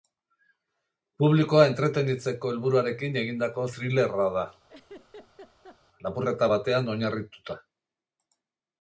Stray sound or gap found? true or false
true